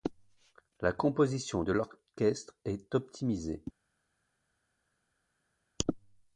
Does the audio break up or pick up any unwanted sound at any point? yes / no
no